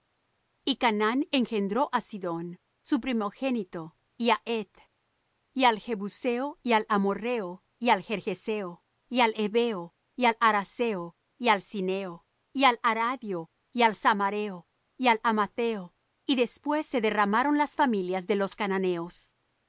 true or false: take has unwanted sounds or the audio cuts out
false